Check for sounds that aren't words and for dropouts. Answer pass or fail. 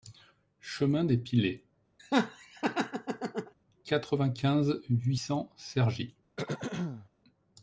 fail